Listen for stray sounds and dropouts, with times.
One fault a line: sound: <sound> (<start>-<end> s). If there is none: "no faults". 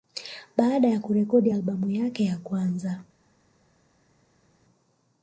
no faults